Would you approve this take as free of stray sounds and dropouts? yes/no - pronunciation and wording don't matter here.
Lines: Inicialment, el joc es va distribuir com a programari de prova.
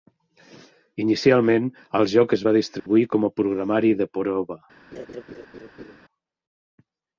no